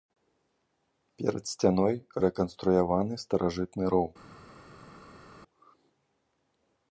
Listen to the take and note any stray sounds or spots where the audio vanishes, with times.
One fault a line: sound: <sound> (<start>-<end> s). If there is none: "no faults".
no faults